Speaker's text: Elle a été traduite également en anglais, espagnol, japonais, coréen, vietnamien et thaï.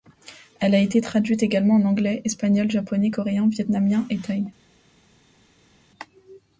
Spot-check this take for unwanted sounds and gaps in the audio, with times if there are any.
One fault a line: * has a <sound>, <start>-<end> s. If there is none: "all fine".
all fine